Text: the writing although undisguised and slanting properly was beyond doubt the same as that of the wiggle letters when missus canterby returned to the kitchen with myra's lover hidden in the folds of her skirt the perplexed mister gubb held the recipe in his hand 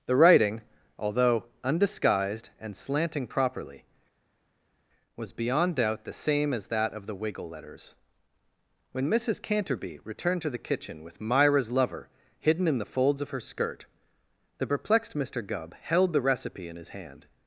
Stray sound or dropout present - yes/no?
no